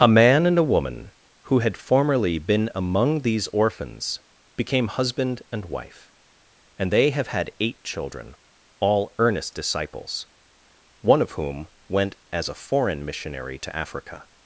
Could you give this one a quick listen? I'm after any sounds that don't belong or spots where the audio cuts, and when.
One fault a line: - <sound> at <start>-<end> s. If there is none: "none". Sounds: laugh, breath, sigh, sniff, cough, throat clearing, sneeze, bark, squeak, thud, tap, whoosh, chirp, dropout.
none